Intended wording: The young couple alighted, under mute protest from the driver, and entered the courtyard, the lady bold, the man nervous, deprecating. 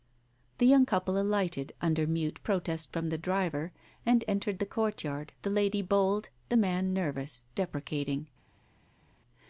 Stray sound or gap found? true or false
false